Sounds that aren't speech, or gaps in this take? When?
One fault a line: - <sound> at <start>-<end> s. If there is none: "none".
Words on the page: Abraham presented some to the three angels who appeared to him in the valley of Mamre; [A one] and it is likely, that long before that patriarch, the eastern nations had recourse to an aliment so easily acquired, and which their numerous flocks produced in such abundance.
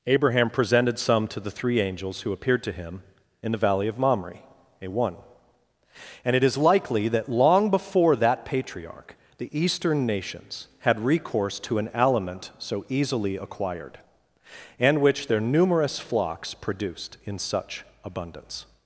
none